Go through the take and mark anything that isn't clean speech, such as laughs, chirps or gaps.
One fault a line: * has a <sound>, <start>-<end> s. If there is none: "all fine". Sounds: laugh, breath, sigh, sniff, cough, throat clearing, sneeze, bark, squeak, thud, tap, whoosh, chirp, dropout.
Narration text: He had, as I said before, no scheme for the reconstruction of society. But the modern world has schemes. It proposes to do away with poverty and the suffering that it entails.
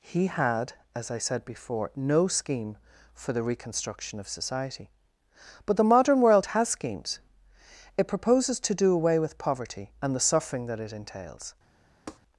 * has a tap, 12.1-12.2 s